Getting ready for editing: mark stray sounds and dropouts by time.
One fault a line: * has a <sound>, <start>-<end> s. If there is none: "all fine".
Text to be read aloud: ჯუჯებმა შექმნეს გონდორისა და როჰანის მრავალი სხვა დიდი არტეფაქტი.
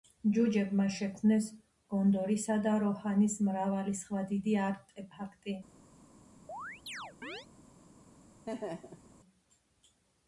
* has a chirp, 6.5-7.5 s
* has a laugh, 8.5-9.1 s